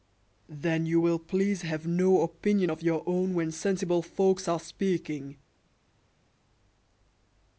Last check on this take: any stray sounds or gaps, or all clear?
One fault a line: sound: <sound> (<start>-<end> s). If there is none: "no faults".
no faults